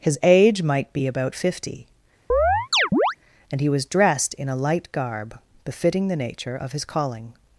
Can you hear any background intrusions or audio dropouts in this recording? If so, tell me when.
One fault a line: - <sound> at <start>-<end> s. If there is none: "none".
- chirp at 2.3-3.2 s